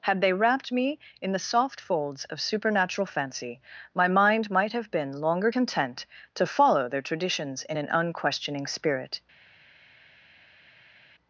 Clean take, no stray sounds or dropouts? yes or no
yes